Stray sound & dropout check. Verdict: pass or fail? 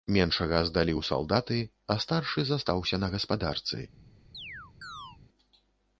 fail